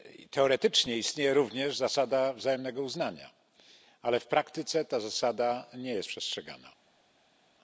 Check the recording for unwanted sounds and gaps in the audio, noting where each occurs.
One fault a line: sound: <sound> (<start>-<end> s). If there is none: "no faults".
no faults